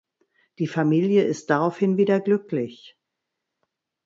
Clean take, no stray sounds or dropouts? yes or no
yes